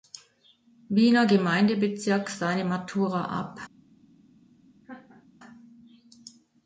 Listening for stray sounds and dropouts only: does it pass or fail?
fail